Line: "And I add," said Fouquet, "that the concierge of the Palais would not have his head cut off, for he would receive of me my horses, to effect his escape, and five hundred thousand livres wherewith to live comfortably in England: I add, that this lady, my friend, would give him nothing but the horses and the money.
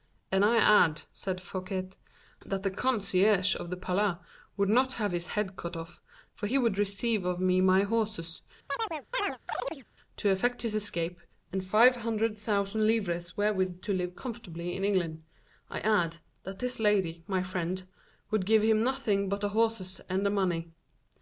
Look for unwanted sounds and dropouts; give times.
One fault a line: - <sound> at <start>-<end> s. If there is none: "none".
- chirp at 8.7-9.8 s